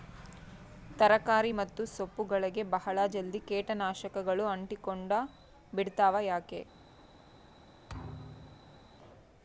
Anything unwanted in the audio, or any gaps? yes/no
yes